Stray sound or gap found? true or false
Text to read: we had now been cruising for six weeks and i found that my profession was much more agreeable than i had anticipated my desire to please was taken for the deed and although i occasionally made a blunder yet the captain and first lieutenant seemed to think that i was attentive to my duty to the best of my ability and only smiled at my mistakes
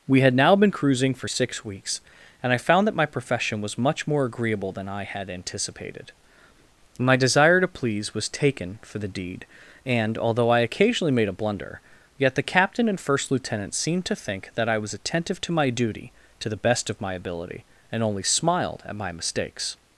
false